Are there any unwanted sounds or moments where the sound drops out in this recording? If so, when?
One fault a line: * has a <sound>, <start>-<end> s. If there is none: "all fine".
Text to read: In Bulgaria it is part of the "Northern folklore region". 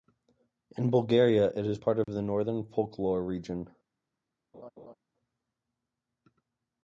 * has a dropout, 2.0-2.1 s
* has a laugh, 4.5-4.9 s